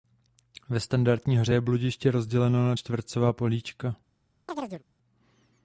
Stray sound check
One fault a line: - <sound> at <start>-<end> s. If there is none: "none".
- chirp at 4.5-4.8 s